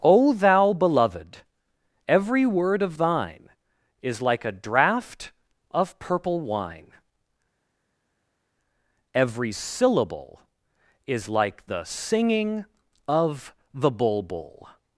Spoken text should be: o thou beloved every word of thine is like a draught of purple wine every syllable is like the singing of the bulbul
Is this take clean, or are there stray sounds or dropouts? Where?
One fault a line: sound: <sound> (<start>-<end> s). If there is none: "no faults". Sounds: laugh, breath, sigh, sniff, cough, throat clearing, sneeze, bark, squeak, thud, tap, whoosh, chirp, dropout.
no faults